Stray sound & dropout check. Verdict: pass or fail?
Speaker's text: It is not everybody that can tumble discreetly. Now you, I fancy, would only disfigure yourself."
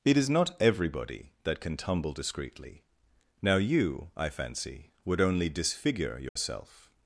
fail